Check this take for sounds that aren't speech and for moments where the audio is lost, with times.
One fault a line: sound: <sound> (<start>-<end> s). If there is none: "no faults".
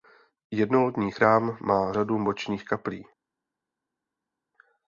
no faults